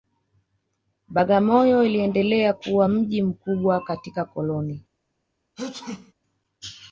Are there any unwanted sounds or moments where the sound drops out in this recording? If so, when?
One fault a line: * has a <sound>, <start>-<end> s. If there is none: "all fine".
* has a sneeze, 5.6-6.1 s